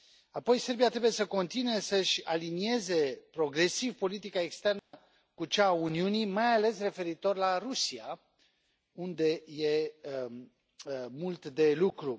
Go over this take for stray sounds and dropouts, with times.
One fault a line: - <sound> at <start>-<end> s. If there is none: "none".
- dropout at 4.8-4.9 s